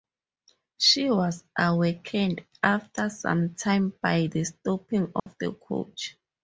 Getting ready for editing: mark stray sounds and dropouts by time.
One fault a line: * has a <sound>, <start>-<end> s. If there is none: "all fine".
* has a dropout, 5.2-5.3 s